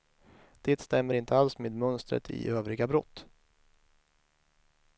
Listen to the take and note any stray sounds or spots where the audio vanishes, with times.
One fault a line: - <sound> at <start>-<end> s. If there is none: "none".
none